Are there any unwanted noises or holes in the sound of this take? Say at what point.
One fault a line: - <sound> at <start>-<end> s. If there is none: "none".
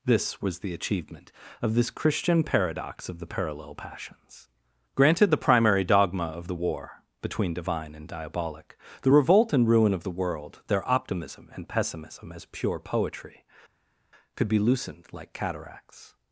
none